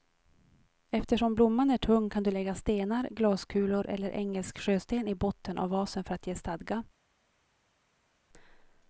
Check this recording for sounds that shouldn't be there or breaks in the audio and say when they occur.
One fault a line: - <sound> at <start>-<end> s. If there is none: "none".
none